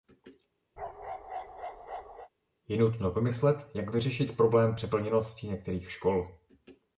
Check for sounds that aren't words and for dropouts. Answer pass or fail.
fail